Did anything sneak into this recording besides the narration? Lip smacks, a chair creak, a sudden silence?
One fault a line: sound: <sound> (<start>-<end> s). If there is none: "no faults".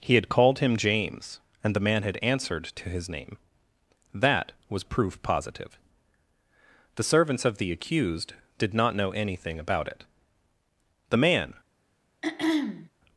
sound: throat clearing (12.2-12.9 s)